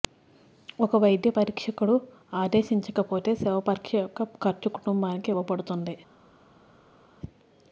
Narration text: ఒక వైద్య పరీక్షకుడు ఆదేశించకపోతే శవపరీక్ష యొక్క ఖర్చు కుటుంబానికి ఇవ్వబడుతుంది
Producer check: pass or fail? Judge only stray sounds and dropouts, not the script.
pass